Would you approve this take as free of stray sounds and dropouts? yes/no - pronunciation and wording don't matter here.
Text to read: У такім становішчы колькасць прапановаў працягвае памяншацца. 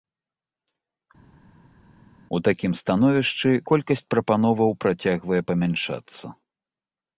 yes